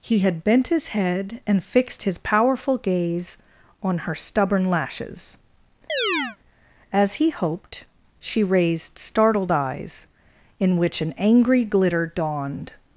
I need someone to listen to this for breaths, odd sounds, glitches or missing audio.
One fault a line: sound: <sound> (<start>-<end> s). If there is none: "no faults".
sound: chirp (5.9-6.4 s)